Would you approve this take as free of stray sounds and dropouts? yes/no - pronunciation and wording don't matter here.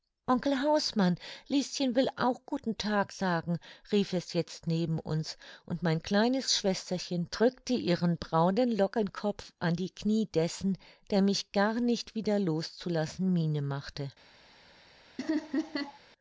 no